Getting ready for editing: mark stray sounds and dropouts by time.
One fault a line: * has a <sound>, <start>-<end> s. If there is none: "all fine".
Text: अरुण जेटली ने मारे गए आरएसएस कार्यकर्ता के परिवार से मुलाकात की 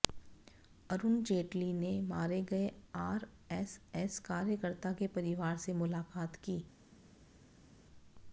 all fine